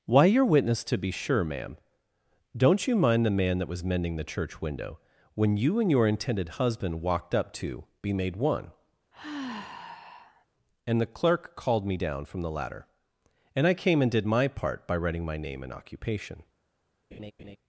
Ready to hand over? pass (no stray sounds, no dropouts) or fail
fail